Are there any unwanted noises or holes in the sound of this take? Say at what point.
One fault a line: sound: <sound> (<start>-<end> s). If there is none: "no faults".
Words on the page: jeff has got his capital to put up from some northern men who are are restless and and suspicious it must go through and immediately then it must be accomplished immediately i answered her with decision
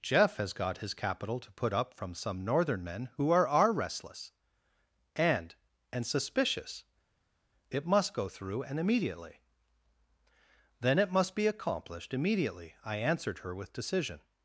no faults